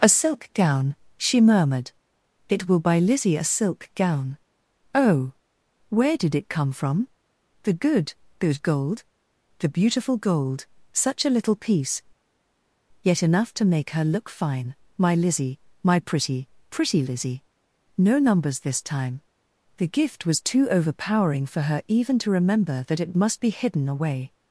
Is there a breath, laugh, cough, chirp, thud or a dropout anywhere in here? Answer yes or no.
no